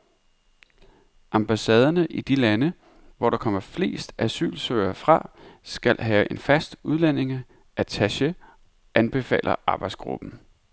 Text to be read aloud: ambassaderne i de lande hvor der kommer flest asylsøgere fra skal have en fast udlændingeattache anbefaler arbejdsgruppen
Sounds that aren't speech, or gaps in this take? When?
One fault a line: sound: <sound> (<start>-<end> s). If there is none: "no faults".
no faults